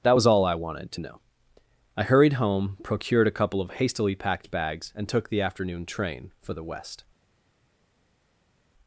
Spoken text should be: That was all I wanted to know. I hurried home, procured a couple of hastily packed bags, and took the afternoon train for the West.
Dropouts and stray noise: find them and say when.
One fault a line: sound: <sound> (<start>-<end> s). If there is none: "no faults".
no faults